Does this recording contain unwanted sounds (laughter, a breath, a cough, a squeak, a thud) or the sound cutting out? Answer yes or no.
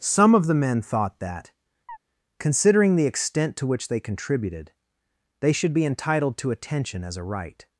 yes